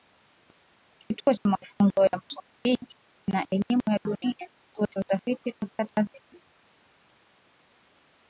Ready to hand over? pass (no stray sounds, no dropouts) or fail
pass